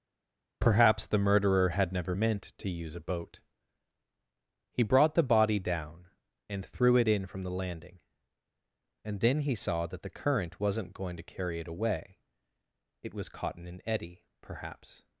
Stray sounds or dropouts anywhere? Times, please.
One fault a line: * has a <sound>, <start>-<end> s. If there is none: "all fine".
all fine